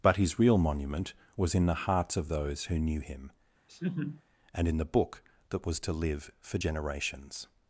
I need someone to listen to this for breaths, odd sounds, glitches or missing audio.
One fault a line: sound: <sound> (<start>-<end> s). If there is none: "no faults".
sound: laugh (3.7-4.2 s)